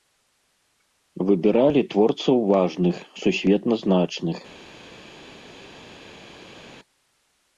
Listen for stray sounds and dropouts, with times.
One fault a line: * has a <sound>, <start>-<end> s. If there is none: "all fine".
all fine